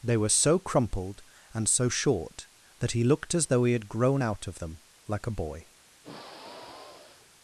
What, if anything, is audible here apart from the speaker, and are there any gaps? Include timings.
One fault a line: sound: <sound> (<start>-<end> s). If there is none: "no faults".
sound: sigh (6.0-7.3 s)